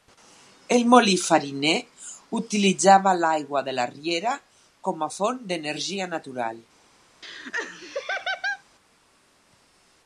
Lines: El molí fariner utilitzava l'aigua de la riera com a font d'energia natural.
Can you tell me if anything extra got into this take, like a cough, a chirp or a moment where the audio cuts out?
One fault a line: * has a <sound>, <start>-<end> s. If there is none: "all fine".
* has a laugh, 7.2-8.6 s